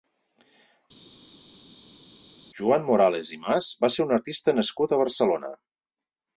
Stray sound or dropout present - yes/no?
no